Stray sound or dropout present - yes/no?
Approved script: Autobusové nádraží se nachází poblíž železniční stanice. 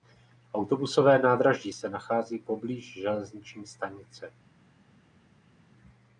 no